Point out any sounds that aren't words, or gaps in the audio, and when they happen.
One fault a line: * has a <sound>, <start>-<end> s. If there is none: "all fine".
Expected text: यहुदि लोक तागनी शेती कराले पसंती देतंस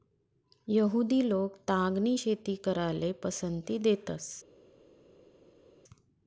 all fine